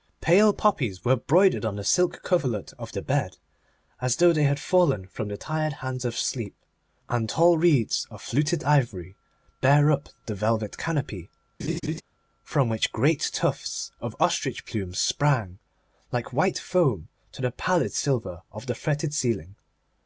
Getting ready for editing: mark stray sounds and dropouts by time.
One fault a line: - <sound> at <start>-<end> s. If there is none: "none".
- laugh at 11.6-12.0 s